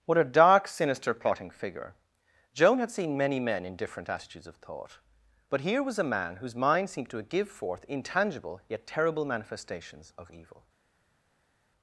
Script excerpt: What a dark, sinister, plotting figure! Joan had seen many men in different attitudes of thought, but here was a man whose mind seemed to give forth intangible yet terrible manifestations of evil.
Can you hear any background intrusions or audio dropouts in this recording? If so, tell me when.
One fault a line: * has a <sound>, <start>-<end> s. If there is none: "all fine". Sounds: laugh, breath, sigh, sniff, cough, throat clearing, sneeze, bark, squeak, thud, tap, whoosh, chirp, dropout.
all fine